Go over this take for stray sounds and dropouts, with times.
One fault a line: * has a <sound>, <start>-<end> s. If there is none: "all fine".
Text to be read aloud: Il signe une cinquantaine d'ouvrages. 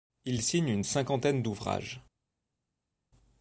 all fine